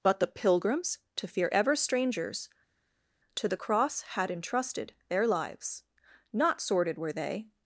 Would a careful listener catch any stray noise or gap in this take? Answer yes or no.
no